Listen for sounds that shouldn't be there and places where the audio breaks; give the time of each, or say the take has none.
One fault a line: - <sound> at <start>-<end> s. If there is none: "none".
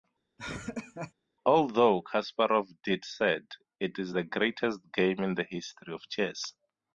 - laugh at 0.4-1.1 s